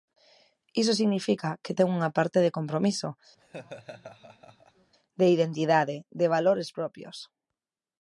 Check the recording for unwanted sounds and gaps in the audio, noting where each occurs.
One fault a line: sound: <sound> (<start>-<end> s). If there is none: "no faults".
sound: laugh (3.4-4.9 s)